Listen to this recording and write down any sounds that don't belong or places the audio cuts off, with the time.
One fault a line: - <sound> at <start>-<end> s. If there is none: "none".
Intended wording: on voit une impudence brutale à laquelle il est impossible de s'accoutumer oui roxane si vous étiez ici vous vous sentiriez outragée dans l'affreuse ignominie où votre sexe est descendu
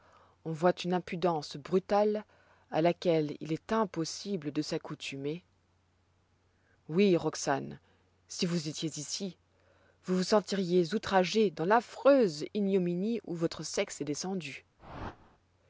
- whoosh at 14.8-15.4 s